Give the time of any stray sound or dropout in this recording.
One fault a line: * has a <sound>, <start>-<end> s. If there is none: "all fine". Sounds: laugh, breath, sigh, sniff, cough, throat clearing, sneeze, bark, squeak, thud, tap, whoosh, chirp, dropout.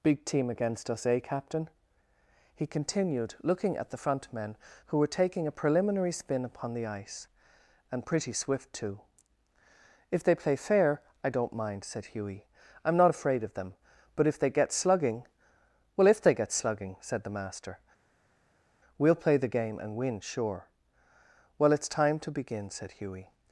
all fine